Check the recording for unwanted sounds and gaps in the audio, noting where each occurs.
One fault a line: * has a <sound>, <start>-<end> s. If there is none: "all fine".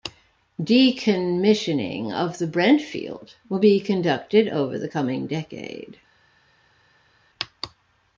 all fine